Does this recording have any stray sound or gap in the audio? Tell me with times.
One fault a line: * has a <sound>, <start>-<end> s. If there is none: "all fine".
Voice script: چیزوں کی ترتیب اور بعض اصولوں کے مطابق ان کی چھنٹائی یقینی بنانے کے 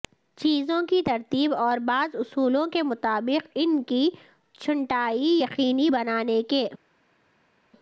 all fine